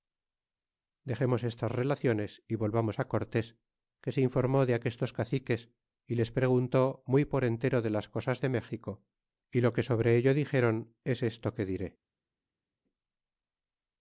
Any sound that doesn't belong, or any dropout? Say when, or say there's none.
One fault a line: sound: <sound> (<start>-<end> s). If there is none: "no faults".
no faults